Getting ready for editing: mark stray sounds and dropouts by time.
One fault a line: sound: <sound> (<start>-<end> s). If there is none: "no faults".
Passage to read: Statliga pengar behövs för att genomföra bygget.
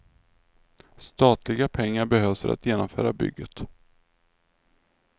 no faults